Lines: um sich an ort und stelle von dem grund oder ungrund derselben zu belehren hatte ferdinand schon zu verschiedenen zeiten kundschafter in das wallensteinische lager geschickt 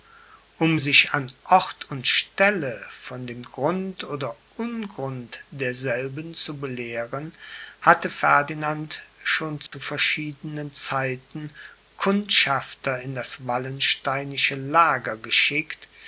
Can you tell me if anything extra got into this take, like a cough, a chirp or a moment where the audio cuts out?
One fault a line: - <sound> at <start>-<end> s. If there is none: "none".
- dropout at 9.7-9.7 s